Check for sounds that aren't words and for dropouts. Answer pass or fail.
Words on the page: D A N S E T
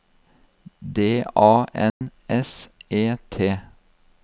fail